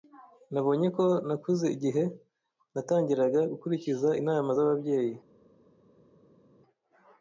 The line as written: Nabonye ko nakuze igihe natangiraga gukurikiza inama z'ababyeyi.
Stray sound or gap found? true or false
false